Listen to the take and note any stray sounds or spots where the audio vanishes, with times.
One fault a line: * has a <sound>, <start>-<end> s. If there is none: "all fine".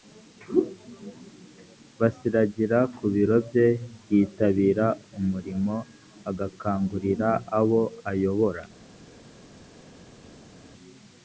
all fine